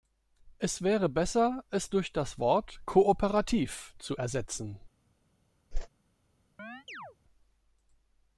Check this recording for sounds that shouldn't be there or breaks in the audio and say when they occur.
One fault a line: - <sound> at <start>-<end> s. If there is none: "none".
- whoosh at 5.7-5.9 s
- chirp at 6.6-7.2 s